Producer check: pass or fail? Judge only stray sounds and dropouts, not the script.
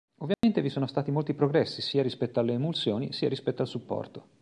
fail